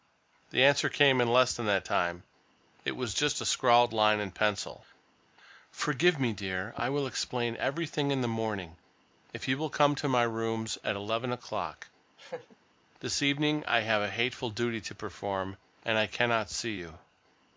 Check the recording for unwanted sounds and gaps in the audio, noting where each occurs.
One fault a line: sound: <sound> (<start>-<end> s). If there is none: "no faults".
sound: laugh (12.2-12.6 s)